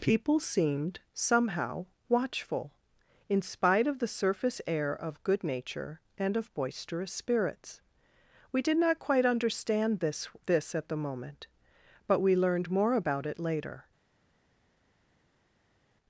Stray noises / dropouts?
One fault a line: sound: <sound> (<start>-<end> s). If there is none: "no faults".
no faults